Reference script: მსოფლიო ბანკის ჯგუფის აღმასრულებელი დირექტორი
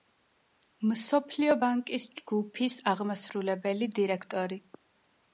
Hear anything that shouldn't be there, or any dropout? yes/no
no